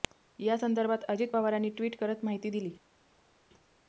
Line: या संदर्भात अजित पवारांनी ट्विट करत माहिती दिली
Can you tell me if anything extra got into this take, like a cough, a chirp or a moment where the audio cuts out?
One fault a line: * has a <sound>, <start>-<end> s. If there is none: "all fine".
all fine